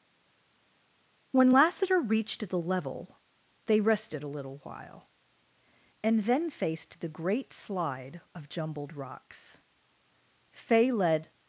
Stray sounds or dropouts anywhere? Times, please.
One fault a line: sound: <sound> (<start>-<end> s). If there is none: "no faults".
no faults